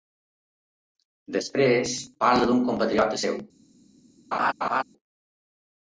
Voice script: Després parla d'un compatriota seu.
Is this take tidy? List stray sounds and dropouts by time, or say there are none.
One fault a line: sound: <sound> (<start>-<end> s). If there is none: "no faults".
sound: laugh (4.3-4.8 s)